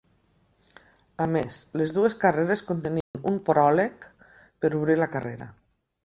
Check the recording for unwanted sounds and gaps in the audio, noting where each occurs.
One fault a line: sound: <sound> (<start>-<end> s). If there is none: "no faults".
sound: dropout (3.0-3.1 s)